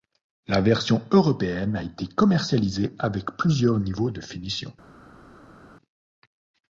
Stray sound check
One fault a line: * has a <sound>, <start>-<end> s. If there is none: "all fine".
all fine